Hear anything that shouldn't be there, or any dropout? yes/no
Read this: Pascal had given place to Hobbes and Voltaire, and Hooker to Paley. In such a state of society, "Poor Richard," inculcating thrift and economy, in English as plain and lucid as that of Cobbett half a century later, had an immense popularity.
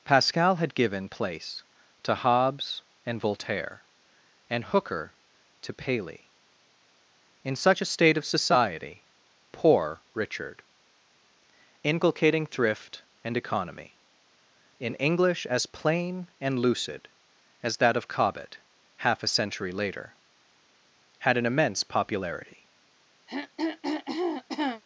yes